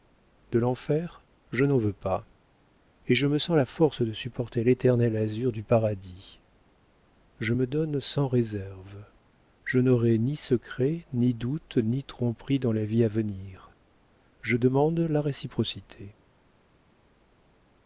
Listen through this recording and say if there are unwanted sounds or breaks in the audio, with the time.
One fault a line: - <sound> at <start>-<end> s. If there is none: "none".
none